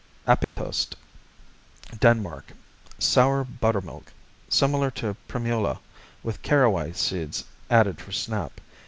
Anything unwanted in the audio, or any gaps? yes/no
yes